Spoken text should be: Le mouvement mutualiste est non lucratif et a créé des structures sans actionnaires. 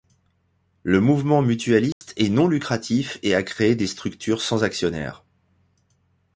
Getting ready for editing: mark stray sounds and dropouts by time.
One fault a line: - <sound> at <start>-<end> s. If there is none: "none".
- dropout at 1.9-2.0 s